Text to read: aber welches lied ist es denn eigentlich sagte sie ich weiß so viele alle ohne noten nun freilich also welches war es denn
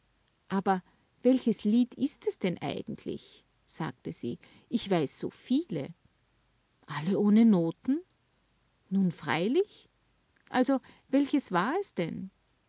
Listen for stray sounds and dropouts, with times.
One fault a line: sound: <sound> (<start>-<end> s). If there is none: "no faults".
no faults